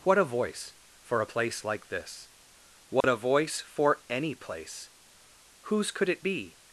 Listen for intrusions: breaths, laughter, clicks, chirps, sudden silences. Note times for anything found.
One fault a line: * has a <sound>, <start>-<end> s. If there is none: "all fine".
* has a dropout, 3.0-3.0 s